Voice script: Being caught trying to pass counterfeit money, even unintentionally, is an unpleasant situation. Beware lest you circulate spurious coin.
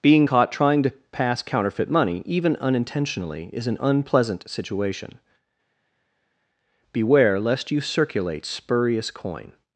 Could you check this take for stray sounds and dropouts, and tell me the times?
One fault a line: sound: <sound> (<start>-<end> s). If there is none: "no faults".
no faults